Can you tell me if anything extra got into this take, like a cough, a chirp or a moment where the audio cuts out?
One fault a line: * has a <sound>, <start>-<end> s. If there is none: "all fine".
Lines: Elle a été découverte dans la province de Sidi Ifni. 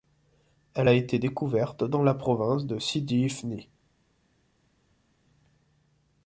all fine